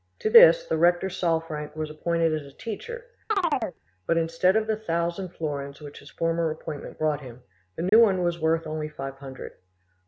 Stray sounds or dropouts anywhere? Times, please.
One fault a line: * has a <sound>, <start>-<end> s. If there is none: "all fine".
* has a chirp, 3.3-3.8 s
* has a dropout, 7.9-7.9 s